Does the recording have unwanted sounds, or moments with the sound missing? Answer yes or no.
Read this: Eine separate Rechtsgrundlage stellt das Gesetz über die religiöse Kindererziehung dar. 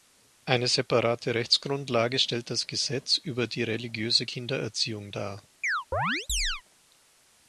yes